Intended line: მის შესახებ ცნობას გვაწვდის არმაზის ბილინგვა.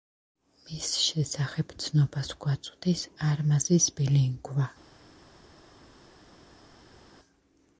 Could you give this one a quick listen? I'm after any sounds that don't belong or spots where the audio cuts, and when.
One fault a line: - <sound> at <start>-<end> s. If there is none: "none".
none